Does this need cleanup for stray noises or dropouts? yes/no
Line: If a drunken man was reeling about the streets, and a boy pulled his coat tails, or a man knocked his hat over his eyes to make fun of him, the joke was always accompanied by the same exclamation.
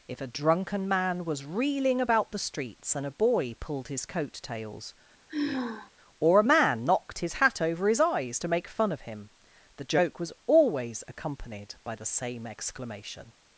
yes